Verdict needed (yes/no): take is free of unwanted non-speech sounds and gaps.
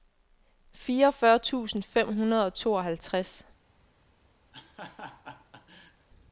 no